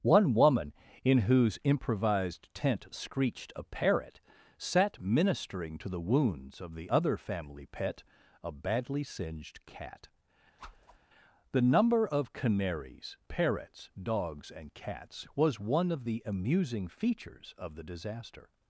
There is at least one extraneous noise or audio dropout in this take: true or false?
true